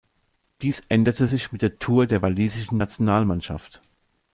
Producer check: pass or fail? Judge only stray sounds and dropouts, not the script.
pass